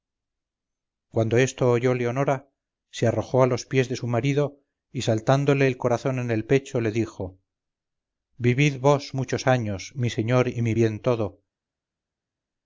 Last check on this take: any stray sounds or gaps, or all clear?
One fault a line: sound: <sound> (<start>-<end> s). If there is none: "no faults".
no faults